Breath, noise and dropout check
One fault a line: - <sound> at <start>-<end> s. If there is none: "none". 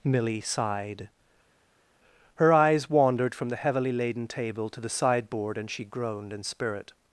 none